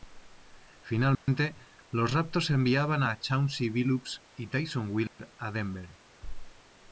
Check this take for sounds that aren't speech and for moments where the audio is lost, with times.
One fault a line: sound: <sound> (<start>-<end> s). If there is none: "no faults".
sound: dropout (1.1-1.3 s)
sound: dropout (5.1-5.2 s)